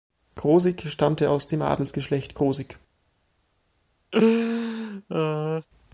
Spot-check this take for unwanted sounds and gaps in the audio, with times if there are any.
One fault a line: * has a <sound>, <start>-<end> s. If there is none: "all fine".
* has a laugh, 4.1-5.7 s